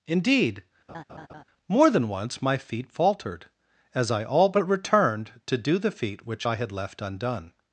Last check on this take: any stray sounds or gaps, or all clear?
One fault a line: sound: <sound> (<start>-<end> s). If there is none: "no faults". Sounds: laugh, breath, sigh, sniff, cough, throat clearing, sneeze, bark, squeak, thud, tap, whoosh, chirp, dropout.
sound: laugh (0.9-1.4 s)